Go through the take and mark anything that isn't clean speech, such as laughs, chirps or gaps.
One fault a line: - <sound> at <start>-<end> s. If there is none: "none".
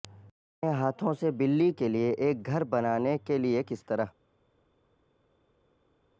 none